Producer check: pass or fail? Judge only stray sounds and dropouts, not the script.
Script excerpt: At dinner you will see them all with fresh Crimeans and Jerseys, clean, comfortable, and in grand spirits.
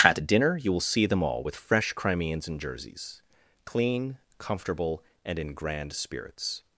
pass